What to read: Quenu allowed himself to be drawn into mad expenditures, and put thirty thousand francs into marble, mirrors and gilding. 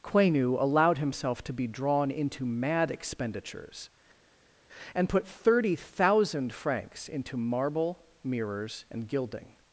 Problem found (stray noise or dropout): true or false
false